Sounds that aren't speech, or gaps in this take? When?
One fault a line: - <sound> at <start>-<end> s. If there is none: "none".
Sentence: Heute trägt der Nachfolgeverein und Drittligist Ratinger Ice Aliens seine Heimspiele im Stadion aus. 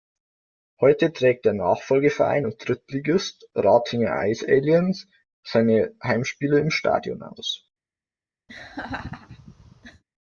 - laugh at 8.5-10.0 s